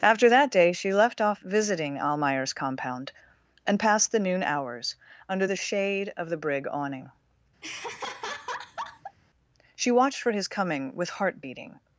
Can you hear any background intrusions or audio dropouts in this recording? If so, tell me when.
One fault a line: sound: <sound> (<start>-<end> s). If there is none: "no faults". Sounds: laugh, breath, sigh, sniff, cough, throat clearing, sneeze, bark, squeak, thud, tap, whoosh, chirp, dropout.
sound: laugh (7.6-9.2 s)